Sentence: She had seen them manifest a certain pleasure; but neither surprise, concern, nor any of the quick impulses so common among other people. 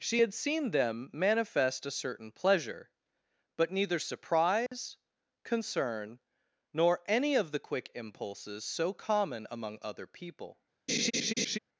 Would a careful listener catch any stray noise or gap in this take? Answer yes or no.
yes